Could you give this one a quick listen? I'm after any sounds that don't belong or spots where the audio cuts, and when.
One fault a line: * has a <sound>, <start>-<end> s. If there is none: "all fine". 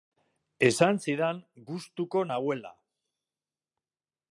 all fine